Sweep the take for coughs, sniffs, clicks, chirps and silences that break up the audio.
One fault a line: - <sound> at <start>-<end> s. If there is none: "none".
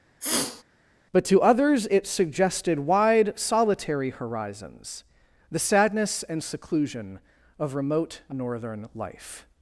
- sniff at 0.2-0.6 s